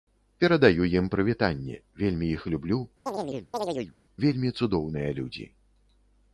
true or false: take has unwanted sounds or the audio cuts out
true